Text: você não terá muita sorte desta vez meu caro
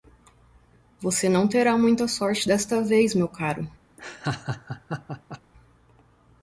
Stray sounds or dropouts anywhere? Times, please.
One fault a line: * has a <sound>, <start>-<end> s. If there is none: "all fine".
* has a laugh, 4.0-5.4 s